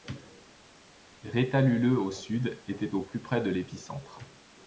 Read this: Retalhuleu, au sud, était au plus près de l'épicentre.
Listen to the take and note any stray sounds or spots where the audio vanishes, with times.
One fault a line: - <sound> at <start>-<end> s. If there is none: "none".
none